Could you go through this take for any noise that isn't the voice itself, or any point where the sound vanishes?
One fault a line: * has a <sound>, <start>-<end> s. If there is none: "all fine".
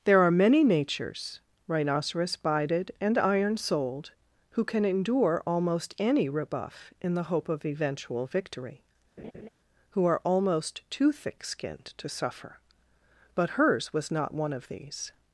* has a laugh, 9.2-9.5 s